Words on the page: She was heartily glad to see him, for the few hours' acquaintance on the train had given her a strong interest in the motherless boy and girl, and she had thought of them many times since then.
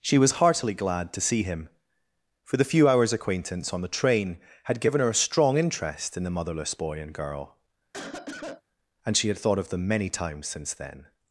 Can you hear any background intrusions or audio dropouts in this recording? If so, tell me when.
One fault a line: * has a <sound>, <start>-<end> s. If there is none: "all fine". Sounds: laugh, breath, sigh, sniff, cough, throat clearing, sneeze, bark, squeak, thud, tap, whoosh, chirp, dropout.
* has a cough, 7.9-8.6 s